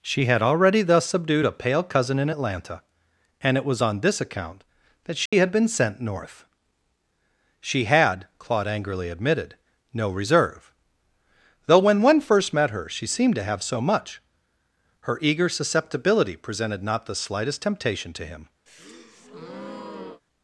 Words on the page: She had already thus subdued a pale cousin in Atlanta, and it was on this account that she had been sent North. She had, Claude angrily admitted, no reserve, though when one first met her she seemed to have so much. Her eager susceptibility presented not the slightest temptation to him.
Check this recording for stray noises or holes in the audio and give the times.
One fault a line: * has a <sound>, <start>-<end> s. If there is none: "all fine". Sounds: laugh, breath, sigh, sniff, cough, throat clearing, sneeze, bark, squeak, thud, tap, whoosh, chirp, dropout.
* has a dropout, 5.3-5.3 s
* has a breath, 18.7-20.2 s